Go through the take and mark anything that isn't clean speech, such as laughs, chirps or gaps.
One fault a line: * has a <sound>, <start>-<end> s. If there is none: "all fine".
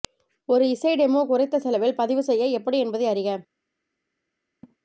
* has a laugh, 4.6-4.8 s